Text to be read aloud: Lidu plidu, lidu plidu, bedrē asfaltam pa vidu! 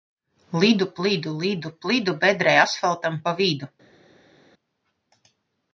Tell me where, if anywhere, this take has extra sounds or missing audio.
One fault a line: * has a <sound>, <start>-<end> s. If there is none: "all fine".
all fine